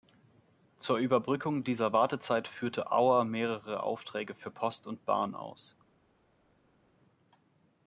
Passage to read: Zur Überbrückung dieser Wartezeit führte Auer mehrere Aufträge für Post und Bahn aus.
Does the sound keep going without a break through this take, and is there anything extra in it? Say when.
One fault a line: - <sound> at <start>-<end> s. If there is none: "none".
none